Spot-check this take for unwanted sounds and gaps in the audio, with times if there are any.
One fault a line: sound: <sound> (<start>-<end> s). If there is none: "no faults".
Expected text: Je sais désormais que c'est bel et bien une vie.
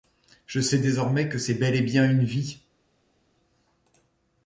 no faults